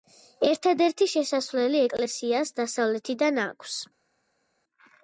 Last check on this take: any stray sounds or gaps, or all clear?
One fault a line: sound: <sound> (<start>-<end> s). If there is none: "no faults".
no faults